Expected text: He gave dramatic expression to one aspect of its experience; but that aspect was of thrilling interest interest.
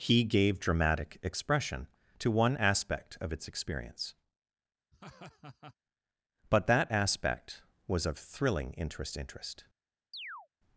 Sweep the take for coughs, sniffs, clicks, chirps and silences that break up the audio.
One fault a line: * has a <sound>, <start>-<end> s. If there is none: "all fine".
* has a laugh, 4.9-5.7 s
* has a chirp, 10.1-10.5 s